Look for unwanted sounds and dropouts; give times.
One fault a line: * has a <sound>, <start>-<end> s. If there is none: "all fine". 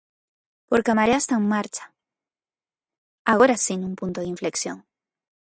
all fine